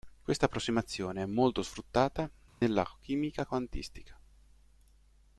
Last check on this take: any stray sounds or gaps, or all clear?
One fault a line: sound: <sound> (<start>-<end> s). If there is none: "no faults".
sound: dropout (2.5-2.6 s)